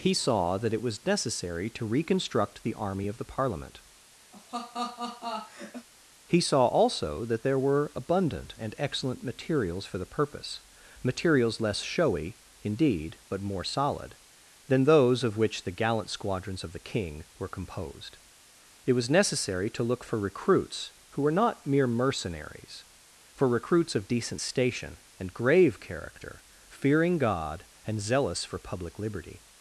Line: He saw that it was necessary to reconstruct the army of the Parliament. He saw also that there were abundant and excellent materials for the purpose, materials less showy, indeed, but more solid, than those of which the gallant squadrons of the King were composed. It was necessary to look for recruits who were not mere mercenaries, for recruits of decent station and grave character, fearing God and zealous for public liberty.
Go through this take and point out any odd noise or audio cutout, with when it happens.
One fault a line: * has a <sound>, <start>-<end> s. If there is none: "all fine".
* has a laugh, 4.3-5.9 s